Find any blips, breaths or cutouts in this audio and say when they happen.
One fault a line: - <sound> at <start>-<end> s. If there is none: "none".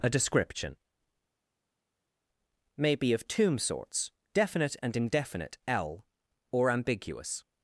none